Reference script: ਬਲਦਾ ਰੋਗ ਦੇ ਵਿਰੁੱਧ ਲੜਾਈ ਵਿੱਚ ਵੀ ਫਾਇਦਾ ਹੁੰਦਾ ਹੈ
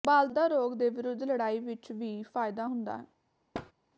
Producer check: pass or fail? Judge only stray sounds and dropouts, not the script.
fail